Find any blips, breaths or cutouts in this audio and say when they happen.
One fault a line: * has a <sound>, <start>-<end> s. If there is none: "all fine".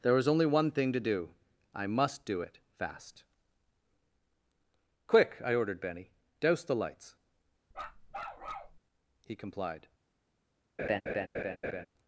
* has a bark, 7.7-8.8 s
* has a laugh, 10.8-11.9 s